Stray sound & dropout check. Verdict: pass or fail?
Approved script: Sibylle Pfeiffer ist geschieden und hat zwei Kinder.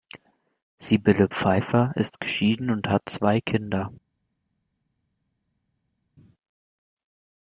pass